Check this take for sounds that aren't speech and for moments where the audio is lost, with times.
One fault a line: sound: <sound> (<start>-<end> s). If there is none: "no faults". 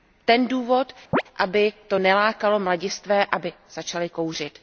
sound: chirp (1.1-1.2 s)